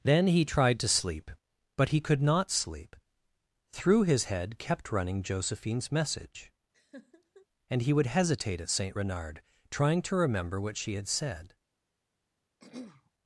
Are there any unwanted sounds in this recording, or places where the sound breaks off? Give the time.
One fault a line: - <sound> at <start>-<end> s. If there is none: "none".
- laugh at 6.7-7.5 s
- throat clearing at 12.6-13.1 s